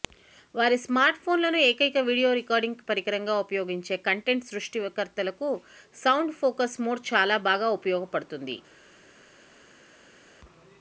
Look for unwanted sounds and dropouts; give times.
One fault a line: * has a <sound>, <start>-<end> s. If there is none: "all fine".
all fine